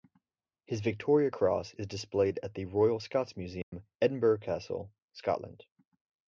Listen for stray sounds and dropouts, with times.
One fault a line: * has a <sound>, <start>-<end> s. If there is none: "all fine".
* has a dropout, 3.6-3.7 s